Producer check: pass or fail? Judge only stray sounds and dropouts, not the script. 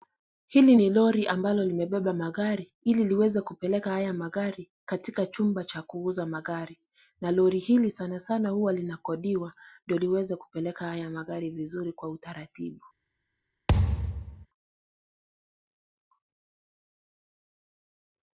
fail